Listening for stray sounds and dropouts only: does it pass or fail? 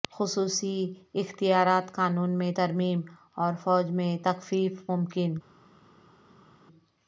pass